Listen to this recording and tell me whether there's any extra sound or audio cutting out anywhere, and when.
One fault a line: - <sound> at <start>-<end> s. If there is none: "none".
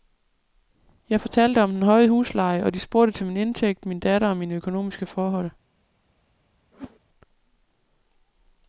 - whoosh at 6.7-7.0 s